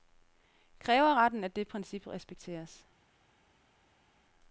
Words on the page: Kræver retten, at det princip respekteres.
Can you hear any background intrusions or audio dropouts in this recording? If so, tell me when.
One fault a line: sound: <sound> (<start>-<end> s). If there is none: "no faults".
no faults